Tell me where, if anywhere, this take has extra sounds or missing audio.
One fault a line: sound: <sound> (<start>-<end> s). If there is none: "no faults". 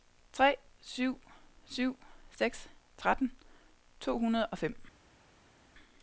no faults